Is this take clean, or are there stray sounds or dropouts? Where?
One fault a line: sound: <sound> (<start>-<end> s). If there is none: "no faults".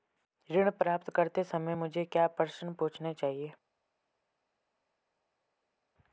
no faults